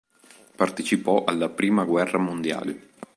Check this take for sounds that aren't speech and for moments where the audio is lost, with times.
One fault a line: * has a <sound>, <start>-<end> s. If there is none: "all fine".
all fine